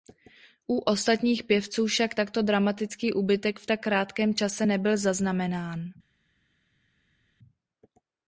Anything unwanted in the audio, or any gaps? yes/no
no